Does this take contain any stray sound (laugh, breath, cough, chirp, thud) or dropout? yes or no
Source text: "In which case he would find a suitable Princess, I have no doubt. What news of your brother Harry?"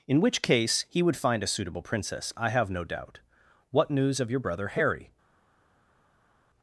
no